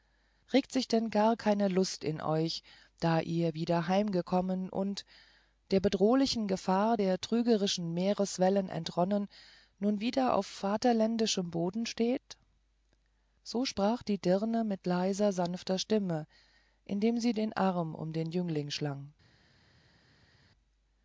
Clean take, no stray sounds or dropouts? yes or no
yes